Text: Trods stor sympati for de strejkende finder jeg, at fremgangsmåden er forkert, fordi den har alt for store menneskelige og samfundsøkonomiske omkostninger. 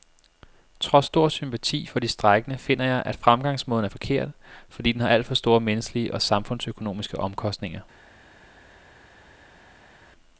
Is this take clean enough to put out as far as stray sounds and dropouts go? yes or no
yes